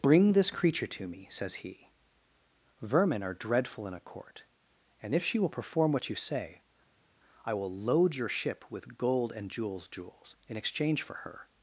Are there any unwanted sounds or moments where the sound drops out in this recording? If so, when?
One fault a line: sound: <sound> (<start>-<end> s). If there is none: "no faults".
no faults